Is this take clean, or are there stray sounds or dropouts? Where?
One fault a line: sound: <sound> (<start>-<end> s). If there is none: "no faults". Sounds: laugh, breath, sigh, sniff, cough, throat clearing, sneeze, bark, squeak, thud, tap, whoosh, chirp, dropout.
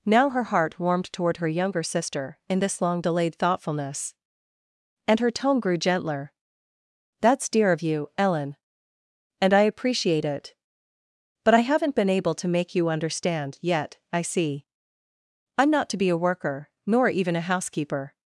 no faults